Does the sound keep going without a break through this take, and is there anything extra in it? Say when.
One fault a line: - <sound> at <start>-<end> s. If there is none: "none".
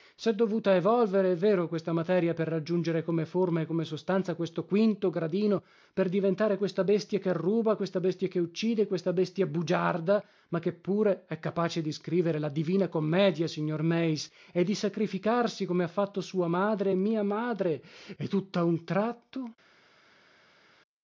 none